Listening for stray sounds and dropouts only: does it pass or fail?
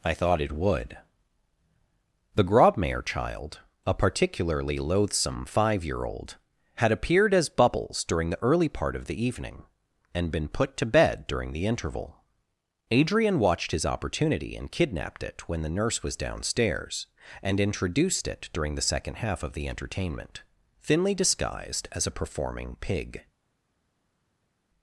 pass